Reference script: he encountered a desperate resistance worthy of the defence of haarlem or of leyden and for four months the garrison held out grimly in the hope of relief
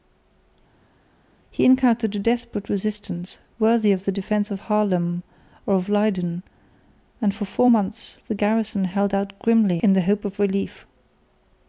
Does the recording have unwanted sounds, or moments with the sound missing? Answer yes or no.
no